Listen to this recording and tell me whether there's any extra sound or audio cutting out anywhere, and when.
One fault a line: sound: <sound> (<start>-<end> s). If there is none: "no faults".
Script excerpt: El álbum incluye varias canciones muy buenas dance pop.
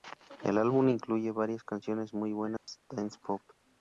sound: dropout (2.6-2.7 s)